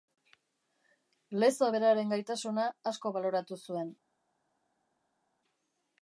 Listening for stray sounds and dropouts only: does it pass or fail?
pass